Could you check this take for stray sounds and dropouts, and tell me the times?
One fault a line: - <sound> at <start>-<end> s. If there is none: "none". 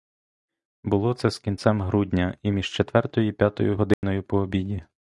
- dropout at 3.9-4.0 s